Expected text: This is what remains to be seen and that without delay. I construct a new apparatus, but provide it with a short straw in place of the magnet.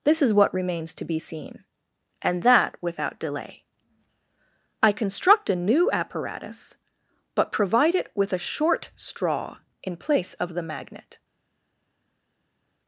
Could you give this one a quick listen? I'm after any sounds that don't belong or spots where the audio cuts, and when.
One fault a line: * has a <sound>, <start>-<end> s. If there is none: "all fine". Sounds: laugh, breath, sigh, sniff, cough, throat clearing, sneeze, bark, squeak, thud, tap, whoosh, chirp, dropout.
all fine